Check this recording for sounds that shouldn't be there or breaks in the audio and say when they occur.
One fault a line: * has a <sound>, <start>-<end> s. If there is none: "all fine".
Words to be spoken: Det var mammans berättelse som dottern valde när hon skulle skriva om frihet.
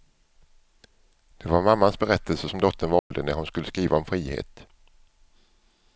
* has a dropout, 3.0-3.1 s